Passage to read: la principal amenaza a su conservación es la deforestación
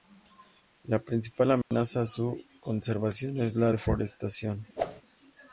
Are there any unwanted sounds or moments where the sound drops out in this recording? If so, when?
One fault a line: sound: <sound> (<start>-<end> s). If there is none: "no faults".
sound: dropout (1.6-1.7 s)
sound: whoosh (4.8-5.0 s)